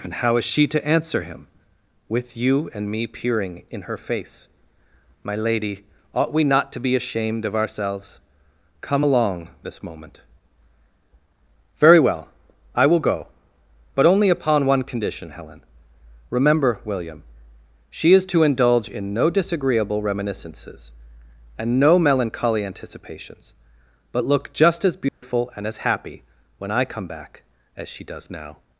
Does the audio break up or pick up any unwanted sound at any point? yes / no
yes